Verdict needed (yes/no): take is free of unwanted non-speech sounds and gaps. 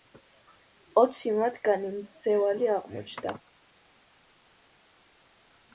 yes